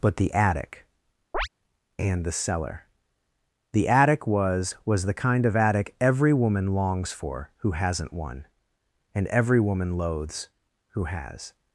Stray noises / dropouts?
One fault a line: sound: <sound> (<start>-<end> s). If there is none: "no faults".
sound: chirp (1.3-1.5 s)